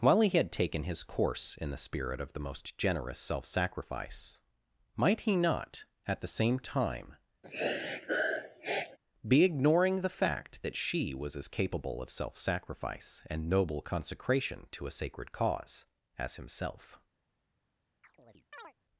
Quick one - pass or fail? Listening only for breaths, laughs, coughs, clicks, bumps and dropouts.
fail